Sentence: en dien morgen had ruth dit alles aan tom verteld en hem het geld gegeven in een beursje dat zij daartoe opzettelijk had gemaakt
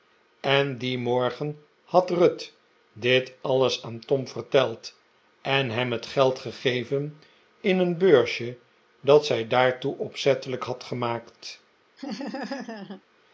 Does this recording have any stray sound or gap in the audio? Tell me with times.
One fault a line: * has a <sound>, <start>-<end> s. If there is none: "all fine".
* has a laugh, 12.0-13.0 s